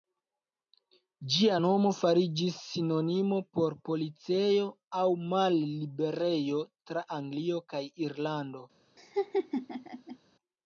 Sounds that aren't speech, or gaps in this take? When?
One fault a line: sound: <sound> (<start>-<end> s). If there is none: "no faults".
sound: laugh (9.0-10.2 s)